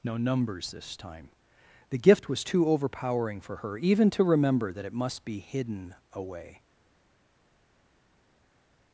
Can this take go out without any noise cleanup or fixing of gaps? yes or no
yes